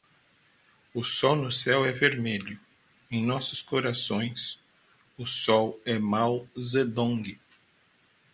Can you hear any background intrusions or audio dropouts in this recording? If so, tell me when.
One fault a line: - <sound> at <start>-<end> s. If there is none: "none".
none